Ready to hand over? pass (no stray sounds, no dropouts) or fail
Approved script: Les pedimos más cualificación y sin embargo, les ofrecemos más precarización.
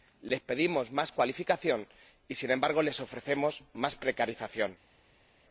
pass